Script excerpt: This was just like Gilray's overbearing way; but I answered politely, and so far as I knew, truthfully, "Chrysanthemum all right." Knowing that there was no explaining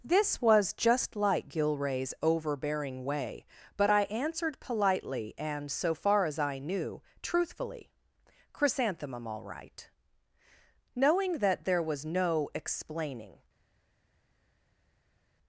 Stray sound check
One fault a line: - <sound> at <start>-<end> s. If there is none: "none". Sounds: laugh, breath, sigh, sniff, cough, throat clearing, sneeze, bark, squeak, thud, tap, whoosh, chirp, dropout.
none